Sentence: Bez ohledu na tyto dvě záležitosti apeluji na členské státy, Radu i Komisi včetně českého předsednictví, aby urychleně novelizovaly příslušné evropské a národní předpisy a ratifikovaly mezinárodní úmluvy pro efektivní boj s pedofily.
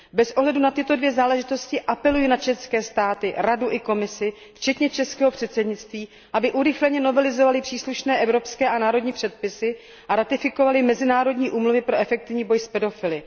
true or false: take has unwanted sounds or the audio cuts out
false